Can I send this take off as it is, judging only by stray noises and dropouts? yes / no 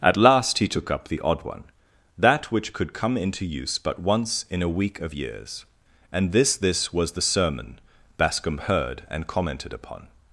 yes